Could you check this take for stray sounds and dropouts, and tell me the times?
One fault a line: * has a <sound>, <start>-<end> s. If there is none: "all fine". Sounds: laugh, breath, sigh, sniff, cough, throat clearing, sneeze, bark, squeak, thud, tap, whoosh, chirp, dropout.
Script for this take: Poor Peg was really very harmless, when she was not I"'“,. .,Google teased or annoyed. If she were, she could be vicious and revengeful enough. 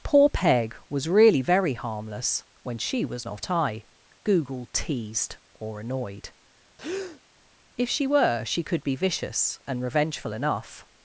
* has a breath, 6.8-7.2 s